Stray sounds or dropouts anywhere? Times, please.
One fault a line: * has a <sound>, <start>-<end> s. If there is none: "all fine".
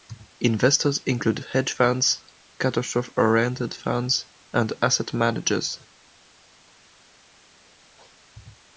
all fine